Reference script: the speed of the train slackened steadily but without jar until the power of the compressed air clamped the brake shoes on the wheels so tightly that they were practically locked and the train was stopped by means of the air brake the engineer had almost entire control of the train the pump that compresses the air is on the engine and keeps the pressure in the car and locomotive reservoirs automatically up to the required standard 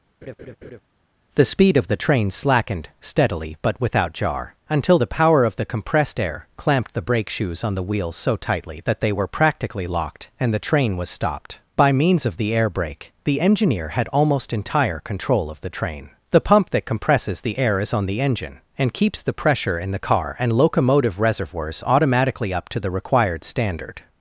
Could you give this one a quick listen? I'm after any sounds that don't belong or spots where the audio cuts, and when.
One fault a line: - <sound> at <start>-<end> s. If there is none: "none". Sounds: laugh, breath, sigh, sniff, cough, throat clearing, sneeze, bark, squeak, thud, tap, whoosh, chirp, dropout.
- laugh at 0.2-0.8 s